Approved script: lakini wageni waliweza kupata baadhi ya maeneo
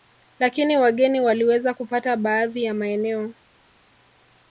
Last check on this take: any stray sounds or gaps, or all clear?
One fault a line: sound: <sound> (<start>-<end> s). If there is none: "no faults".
no faults